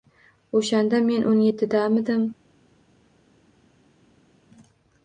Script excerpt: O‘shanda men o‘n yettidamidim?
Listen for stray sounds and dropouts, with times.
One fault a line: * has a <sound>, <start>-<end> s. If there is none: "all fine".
all fine